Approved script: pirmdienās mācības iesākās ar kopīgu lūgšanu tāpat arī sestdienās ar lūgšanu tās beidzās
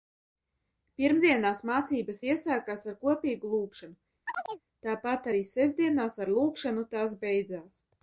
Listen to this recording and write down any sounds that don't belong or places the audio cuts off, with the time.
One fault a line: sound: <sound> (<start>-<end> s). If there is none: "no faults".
sound: chirp (4.3-4.6 s)